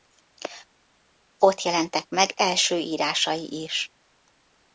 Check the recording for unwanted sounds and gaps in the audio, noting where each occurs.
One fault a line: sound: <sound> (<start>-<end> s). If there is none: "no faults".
no faults